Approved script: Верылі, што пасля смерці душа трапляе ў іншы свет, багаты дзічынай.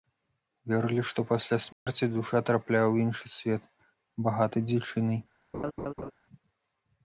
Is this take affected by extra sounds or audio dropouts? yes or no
yes